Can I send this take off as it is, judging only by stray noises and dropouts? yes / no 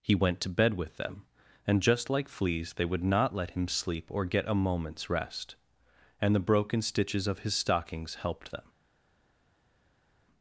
yes